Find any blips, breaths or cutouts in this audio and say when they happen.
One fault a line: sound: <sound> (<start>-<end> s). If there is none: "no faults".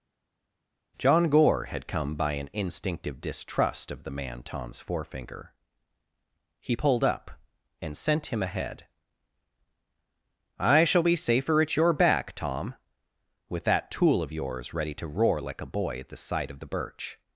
no faults